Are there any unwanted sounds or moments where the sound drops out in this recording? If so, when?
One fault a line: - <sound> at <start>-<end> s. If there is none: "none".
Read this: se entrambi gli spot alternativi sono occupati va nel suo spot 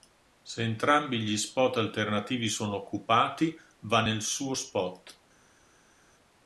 none